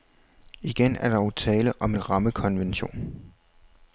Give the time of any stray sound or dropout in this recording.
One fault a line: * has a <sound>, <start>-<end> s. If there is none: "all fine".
all fine